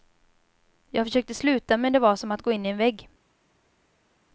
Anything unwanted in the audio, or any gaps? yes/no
no